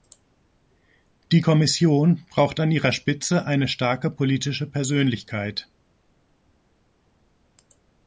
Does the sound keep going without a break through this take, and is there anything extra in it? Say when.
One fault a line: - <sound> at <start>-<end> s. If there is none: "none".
none